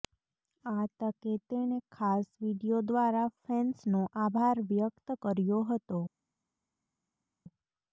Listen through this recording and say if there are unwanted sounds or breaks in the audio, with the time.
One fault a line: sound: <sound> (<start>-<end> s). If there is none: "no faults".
no faults